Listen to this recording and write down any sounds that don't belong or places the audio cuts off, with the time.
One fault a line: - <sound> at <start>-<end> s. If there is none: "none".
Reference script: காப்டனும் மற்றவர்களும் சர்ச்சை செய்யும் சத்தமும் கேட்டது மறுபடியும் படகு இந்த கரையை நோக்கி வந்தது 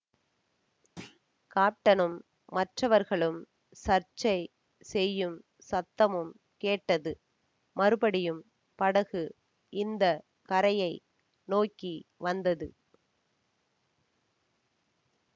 - thud at 1.0-1.2 s